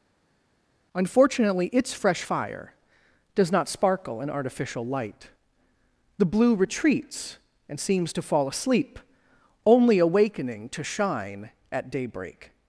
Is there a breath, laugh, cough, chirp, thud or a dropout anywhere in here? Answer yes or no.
no